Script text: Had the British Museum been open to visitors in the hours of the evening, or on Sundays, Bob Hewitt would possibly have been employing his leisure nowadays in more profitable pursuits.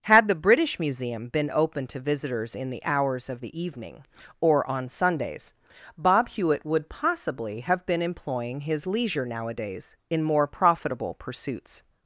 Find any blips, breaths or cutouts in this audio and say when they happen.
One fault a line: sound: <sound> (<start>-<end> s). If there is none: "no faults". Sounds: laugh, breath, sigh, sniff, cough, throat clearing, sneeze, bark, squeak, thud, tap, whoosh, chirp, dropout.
no faults